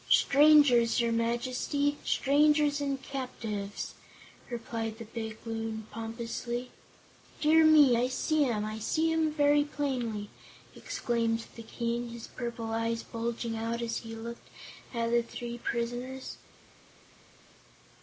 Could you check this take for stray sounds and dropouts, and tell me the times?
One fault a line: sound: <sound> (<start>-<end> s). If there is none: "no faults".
no faults